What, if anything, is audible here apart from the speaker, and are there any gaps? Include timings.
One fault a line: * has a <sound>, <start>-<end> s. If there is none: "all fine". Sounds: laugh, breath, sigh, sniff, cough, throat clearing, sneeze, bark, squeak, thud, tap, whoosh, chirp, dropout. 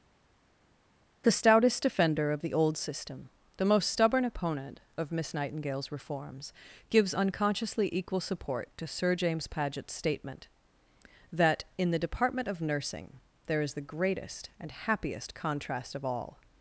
all fine